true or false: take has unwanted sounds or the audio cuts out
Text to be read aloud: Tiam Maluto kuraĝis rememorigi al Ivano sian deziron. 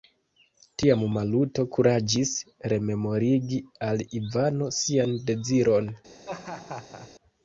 true